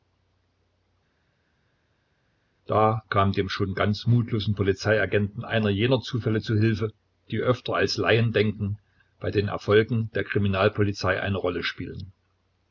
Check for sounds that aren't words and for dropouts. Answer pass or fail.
pass